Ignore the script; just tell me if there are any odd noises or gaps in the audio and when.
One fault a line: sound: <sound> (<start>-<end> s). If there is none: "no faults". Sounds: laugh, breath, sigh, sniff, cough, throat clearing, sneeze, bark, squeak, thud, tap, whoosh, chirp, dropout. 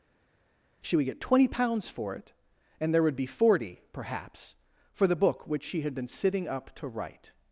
no faults